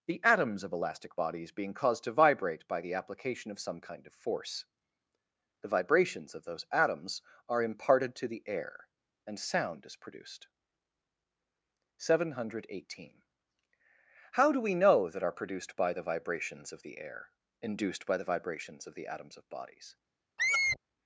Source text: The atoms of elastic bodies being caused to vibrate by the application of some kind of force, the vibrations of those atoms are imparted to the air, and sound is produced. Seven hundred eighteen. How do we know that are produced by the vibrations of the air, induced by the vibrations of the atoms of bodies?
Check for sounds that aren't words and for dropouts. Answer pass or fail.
fail